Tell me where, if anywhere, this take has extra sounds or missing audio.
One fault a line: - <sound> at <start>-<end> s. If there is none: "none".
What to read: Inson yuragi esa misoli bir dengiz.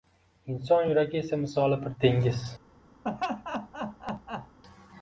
- laugh at 3.0-4.6 s